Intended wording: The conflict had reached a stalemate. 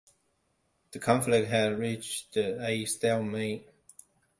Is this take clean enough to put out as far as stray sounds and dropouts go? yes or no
yes